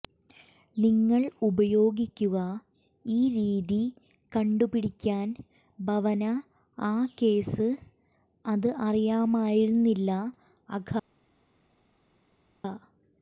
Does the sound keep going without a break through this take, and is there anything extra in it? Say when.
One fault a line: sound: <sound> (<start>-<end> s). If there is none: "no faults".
no faults